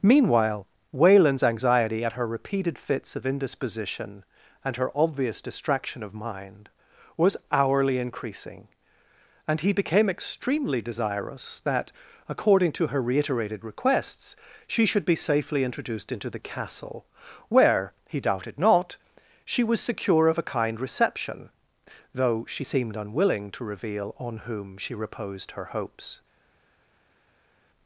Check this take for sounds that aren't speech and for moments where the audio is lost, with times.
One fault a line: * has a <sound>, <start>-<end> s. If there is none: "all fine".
all fine